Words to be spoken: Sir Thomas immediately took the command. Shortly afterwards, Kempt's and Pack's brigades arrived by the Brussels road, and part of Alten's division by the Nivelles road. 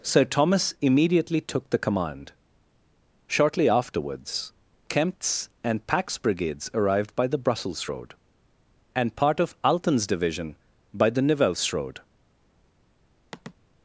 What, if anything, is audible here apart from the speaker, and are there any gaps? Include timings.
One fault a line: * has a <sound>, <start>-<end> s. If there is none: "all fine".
* has a sigh, 13.3-13.5 s